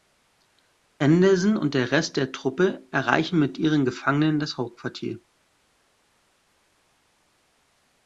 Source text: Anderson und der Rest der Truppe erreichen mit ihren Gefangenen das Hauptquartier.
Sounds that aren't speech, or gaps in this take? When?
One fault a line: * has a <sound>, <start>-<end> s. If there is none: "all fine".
all fine